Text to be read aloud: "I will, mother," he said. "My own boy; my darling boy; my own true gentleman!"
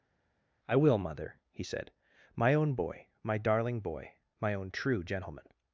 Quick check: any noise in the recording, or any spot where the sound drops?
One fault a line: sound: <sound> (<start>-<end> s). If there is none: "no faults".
no faults